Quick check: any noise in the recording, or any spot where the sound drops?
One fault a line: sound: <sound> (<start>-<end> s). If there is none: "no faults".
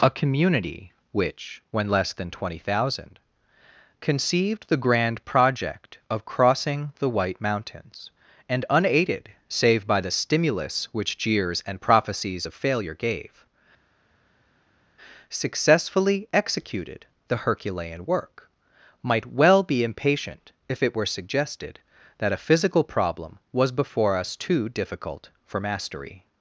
no faults